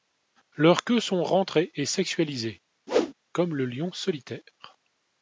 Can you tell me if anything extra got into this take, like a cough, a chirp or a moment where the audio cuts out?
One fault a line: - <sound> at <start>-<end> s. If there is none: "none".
- whoosh at 2.9-3.1 s